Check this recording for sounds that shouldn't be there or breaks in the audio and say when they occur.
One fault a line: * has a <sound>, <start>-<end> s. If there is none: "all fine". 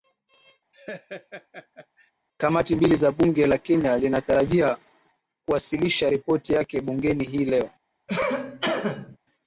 * has a laugh, 0.7-2.1 s
* has a cough, 8.1-9.2 s